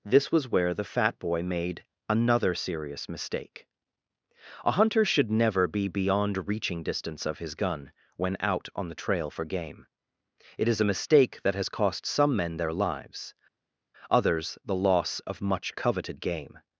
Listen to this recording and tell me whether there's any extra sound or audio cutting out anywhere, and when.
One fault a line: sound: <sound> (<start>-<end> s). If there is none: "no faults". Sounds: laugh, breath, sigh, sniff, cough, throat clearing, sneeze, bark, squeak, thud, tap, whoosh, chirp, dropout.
no faults